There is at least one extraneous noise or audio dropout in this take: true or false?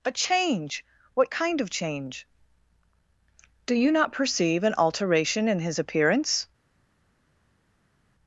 false